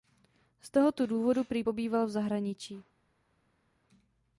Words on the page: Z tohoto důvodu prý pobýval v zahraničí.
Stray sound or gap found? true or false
false